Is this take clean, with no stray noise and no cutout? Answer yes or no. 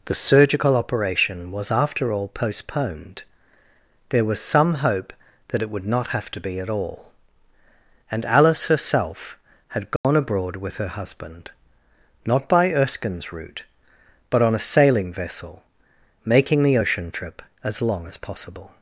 no